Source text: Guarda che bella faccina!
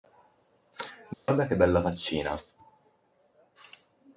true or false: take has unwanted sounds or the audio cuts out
true